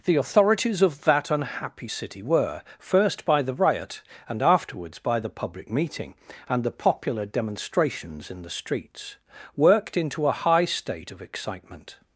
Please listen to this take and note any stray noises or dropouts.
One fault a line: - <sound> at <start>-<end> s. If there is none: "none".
none